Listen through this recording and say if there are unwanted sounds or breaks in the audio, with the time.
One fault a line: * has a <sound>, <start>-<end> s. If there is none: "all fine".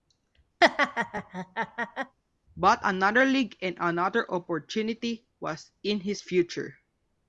* has a laugh, 0.6-2.2 s